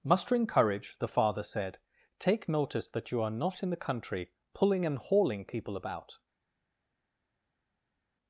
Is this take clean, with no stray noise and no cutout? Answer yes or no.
yes